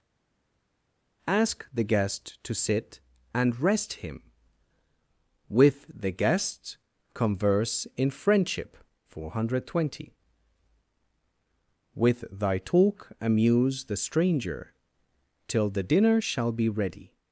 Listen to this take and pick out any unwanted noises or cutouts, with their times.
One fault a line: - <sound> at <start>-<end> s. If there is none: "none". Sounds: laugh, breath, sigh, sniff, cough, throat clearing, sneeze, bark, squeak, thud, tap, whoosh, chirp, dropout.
none